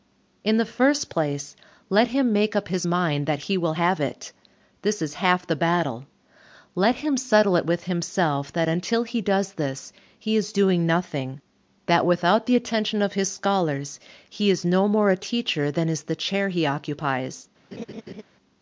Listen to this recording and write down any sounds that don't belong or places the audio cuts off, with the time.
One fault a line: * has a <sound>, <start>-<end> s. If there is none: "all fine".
* has a laugh, 17.7-18.2 s